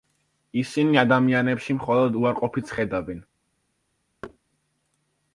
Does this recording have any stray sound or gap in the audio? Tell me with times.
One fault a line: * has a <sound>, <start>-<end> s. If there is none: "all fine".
* has a thud, 4.2-4.4 s